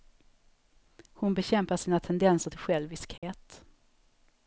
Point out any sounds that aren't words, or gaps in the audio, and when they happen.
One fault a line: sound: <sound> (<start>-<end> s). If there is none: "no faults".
sound: dropout (3.2-3.2 s)